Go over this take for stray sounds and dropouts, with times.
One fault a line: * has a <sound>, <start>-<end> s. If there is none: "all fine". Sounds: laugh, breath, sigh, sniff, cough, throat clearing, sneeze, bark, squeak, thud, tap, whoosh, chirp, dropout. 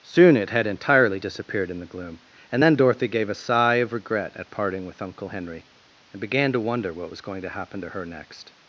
all fine